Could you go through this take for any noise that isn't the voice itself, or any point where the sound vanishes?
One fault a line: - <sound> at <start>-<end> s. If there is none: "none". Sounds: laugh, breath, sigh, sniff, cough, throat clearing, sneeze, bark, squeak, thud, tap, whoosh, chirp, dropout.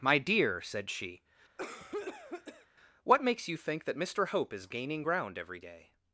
- cough at 1.6-2.7 s